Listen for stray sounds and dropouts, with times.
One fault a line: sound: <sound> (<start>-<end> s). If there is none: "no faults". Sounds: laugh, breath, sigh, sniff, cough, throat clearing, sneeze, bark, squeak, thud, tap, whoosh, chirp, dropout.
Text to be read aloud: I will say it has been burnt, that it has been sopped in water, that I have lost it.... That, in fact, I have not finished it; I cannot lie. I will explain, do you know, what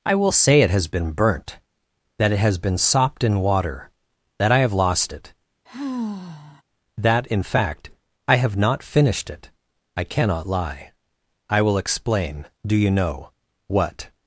sound: sigh (5.7-6.6 s)